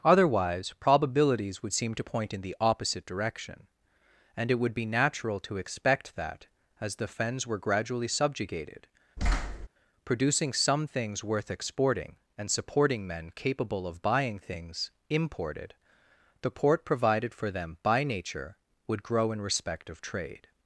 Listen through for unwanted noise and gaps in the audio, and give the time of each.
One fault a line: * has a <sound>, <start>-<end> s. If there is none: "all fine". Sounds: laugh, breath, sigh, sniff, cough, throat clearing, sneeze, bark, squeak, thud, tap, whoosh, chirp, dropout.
* has a thud, 9.2-9.7 s